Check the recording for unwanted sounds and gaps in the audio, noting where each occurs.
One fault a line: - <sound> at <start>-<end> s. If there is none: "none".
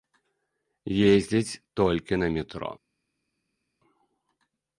none